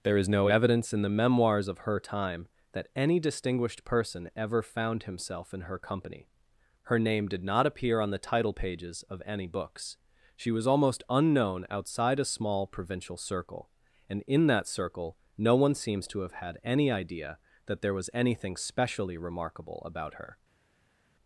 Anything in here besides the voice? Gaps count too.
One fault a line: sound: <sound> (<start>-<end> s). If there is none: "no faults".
no faults